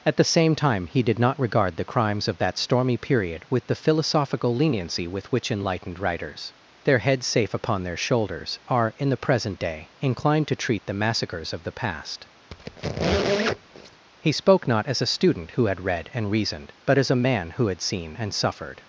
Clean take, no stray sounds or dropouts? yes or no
no